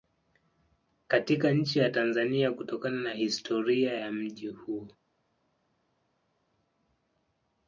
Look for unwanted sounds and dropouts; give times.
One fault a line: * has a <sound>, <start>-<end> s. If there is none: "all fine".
all fine